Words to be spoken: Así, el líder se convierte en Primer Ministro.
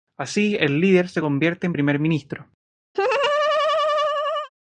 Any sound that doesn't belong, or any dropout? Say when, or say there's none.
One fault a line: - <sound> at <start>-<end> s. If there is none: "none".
- laugh at 2.9-4.5 s